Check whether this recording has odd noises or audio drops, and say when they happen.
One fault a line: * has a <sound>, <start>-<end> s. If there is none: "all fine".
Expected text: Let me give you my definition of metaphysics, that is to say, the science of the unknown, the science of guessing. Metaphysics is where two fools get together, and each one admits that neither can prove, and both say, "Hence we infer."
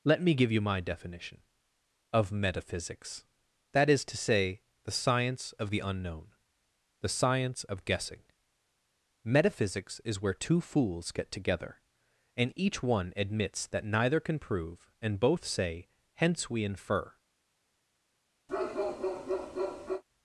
* has a bark, 18.5-20.0 s